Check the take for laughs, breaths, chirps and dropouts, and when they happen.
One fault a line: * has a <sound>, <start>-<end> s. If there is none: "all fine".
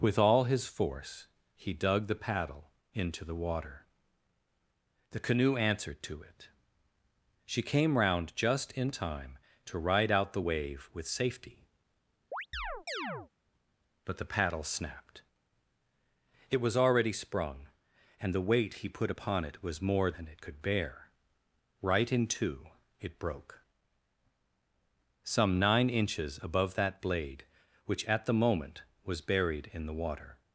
* has a chirp, 12.3-13.3 s